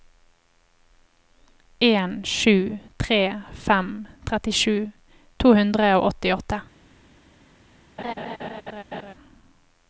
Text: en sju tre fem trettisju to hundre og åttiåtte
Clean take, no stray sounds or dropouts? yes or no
no